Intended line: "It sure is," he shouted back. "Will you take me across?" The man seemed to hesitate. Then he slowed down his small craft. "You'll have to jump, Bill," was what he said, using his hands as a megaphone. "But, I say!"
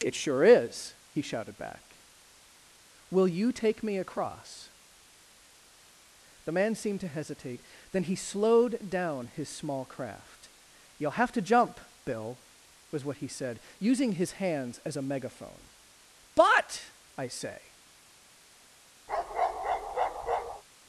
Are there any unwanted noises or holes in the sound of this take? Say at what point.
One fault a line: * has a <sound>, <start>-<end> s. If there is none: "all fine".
* has a bark, 19.1-20.6 s